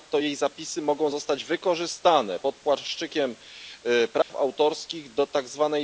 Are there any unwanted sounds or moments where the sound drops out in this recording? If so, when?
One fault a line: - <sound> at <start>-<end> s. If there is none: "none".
- dropout at 4.2-4.3 s